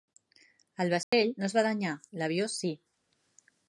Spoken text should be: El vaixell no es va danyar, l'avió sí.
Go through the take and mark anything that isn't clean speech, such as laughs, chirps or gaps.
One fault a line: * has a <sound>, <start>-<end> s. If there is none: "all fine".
* has a dropout, 1.0-1.1 s